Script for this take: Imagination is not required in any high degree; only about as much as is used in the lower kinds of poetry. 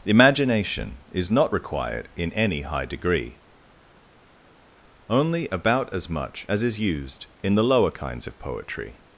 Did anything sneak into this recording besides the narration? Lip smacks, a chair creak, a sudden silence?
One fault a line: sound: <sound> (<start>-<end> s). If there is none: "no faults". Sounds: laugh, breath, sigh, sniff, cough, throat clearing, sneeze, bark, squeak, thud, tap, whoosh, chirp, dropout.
no faults